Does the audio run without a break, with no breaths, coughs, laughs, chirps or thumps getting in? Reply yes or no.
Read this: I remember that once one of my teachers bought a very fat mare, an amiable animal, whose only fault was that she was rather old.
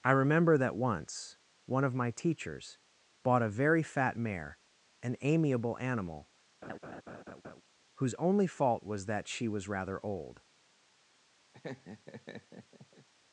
no